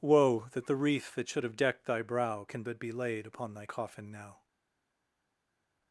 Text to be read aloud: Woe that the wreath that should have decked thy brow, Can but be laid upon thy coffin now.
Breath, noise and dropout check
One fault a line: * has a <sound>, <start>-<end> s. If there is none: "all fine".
all fine